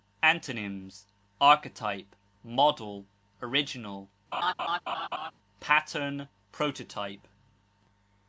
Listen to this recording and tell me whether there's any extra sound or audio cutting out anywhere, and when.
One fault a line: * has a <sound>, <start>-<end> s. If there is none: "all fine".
* has a laugh, 4.3-5.3 s